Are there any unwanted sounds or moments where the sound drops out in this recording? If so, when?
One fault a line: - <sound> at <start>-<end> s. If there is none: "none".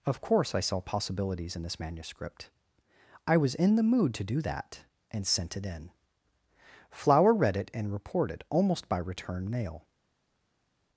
none